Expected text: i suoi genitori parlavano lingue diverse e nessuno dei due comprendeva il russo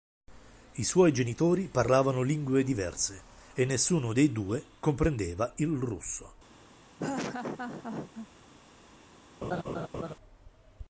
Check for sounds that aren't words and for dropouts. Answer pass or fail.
fail